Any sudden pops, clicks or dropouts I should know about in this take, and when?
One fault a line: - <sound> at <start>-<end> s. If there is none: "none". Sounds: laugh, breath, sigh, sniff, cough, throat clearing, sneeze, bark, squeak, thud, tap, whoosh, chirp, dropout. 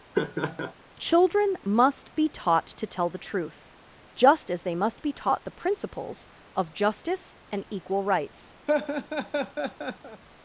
- laugh at 0.1-0.7 s
- laugh at 8.7-10.2 s